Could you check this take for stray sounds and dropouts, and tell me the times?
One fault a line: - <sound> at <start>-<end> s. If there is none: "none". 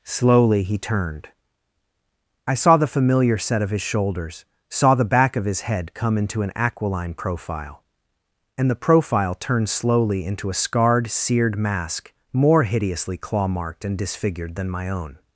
none